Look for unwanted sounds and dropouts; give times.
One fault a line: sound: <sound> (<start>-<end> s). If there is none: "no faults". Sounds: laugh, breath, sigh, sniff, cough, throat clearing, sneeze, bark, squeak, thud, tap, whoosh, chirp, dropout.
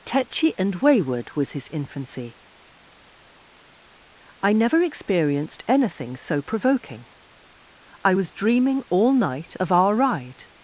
no faults